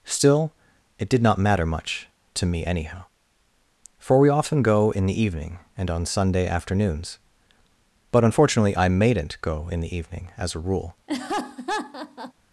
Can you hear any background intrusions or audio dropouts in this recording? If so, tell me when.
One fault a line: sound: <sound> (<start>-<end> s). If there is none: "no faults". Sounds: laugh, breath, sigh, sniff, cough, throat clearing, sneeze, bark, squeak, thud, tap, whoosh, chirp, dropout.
sound: laugh (11.1-12.3 s)